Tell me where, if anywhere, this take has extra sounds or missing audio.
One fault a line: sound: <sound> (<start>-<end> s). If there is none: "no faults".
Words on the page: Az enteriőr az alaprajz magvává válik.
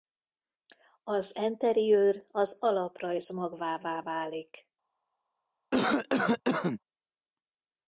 sound: cough (5.7-6.8 s)